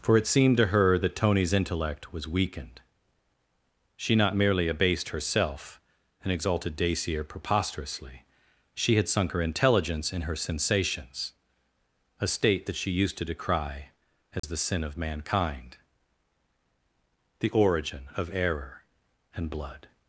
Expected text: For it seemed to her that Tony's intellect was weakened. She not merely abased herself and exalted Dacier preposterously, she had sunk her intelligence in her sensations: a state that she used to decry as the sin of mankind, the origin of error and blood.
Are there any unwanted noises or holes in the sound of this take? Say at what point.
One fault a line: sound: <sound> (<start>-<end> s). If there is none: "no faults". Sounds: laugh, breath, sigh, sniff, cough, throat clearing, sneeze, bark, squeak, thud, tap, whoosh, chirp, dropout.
sound: dropout (14.4-14.4 s)